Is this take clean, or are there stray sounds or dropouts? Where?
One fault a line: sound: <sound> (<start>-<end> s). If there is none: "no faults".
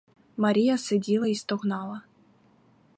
no faults